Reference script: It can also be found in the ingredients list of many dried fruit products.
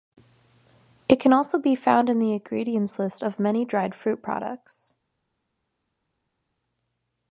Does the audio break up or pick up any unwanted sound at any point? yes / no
no